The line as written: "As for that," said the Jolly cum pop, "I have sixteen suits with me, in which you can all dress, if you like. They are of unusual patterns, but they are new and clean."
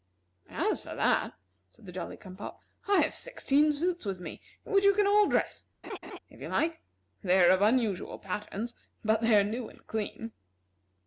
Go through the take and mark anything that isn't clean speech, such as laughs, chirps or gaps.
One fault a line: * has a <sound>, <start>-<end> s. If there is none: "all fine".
* has a laugh, 5.8-6.2 s